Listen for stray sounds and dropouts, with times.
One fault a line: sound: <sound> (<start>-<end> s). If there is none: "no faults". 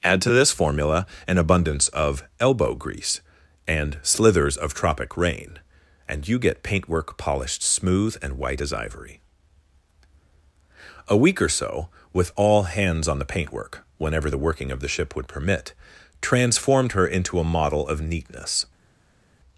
no faults